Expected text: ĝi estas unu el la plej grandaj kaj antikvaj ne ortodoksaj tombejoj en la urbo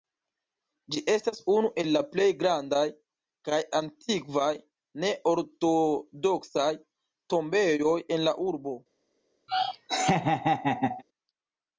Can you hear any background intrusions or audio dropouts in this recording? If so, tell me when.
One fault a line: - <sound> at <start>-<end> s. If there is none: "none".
- laugh at 9.5-11.0 s